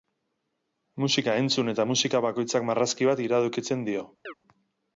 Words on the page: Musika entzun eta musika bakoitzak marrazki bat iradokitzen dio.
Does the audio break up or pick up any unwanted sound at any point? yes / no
yes